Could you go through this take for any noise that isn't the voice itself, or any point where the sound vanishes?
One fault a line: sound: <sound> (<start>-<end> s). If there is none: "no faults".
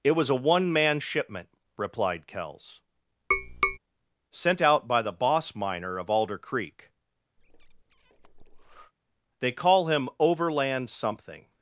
sound: tap (3.3-3.8 s)
sound: breath (7.4-8.9 s)